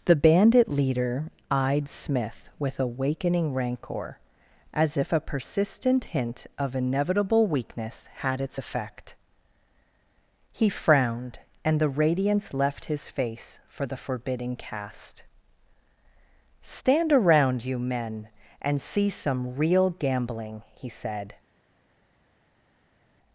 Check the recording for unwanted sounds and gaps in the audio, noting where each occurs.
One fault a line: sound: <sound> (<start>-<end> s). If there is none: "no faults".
no faults